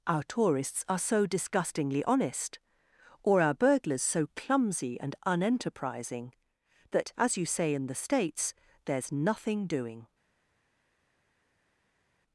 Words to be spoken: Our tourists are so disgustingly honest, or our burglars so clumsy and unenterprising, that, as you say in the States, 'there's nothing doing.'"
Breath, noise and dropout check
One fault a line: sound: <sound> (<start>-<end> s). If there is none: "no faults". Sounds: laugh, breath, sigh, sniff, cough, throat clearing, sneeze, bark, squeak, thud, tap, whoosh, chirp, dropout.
no faults